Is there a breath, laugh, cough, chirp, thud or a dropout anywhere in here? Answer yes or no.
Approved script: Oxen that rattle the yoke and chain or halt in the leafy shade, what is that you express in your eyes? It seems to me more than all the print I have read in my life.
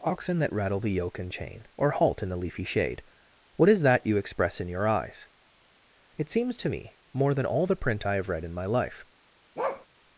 yes